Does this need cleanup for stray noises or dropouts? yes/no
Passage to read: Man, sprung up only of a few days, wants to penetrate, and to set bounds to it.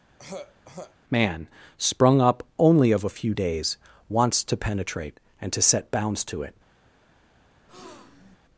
yes